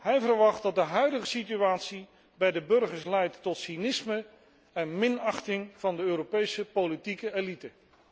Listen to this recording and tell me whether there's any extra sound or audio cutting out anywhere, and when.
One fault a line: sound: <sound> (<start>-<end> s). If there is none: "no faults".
no faults